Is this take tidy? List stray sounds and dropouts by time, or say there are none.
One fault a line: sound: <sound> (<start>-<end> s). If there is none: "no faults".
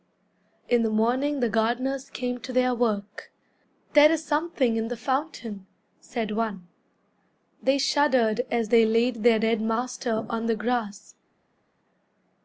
no faults